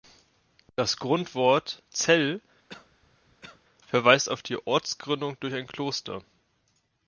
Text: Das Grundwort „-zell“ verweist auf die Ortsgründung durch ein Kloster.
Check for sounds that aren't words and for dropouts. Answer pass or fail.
fail